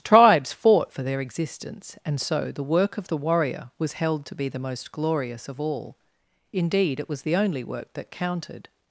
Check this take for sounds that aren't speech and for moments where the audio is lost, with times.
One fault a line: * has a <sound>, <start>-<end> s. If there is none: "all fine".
all fine